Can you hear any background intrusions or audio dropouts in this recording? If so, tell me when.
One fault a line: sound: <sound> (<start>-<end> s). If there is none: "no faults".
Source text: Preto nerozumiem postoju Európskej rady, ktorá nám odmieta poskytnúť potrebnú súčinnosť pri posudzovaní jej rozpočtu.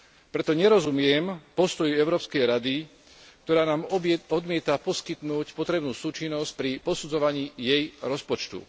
no faults